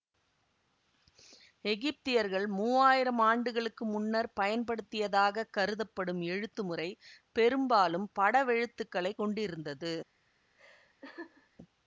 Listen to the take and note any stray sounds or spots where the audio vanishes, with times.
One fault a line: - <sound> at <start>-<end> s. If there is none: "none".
- laugh at 10.6-11.5 s